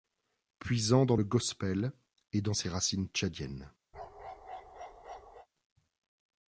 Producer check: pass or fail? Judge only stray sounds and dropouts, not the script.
fail